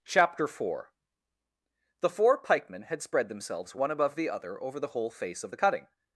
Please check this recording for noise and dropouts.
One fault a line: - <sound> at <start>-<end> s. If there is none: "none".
none